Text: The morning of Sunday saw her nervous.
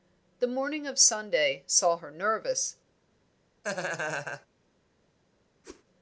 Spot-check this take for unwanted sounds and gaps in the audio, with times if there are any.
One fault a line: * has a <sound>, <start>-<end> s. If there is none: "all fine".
* has a laugh, 3.6-4.5 s
* has a whoosh, 5.6-5.8 s